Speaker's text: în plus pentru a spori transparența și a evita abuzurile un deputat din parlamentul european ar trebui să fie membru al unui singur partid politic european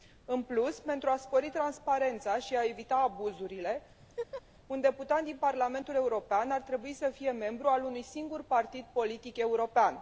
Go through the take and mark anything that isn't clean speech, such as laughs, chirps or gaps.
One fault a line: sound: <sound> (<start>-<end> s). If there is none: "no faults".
sound: laugh (4.0-4.4 s)